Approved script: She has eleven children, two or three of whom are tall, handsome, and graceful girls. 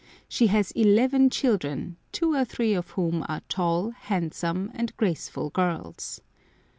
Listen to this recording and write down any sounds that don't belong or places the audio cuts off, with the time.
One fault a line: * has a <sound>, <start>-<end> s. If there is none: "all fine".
all fine